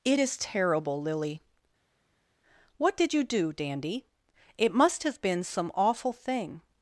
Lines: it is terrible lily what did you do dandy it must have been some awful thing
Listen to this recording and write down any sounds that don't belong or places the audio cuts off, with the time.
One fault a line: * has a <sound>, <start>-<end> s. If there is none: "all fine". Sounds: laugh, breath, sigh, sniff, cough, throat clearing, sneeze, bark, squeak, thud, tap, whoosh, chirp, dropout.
all fine